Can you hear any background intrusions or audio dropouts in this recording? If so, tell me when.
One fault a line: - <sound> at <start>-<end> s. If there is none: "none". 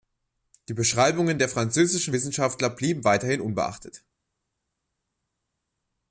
none